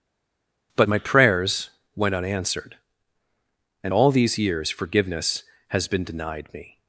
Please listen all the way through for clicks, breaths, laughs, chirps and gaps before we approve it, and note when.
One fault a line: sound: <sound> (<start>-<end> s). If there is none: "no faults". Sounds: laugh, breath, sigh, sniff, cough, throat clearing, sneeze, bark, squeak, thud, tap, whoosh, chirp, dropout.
no faults